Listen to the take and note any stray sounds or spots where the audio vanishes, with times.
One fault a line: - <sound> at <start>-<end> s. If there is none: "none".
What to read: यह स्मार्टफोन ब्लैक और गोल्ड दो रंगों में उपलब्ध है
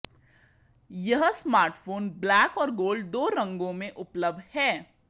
none